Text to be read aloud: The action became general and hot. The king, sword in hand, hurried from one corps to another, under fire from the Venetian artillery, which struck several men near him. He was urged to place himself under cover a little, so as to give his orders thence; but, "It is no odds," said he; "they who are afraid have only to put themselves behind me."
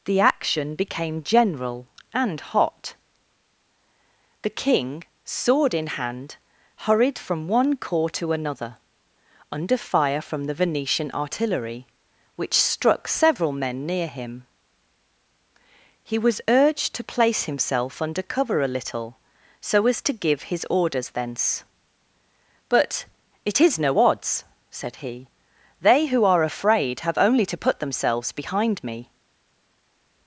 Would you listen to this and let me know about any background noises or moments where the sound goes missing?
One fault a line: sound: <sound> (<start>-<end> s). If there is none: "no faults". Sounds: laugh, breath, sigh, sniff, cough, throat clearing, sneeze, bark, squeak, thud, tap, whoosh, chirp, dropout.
no faults